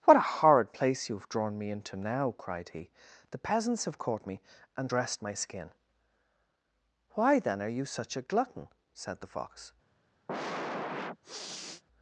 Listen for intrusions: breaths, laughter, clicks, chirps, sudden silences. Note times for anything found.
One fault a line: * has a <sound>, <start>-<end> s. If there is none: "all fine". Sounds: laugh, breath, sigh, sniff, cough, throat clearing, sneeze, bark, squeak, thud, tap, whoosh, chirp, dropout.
* has a sniff, 10.3-11.8 s